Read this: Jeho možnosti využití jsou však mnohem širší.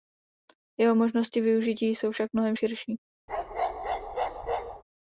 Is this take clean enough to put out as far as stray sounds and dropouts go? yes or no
no